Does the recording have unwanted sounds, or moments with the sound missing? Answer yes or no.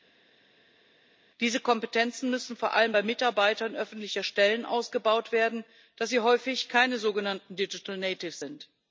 no